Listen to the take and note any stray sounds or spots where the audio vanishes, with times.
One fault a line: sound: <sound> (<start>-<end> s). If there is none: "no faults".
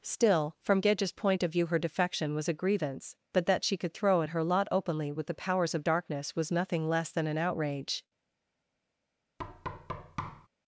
sound: thud (9.4-10.5 s)